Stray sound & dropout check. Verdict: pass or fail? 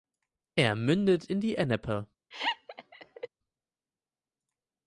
fail